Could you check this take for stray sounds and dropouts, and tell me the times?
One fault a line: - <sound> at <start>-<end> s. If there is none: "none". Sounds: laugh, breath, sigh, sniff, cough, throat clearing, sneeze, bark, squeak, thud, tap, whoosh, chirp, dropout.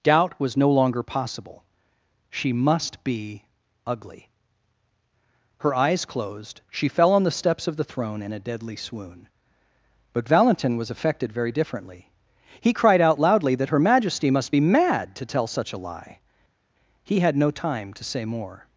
none